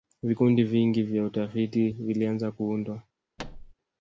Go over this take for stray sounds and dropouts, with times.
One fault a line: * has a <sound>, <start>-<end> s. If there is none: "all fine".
* has a thud, 3.4-3.7 s